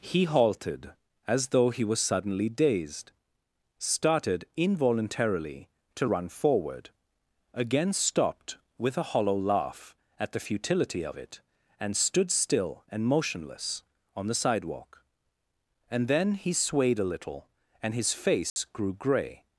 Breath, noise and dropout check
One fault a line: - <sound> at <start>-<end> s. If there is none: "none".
- dropout at 18.5-18.6 s